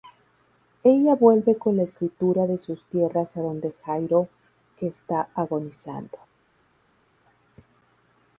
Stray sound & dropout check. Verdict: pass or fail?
pass